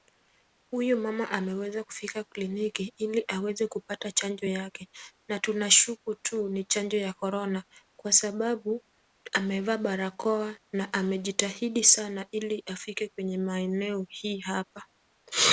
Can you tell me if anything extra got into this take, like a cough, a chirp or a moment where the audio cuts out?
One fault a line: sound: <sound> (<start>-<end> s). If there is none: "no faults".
no faults